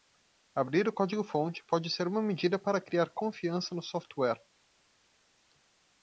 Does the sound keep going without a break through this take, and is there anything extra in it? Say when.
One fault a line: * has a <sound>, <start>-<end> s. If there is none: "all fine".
all fine